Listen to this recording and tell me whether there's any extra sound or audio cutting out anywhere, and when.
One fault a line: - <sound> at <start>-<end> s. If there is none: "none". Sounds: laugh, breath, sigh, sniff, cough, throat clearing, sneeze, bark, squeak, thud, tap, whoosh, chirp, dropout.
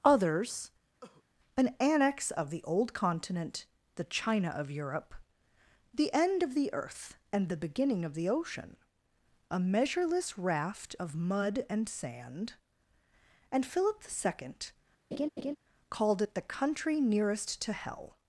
- cough at 1.0-1.2 s
- laugh at 15.1-15.6 s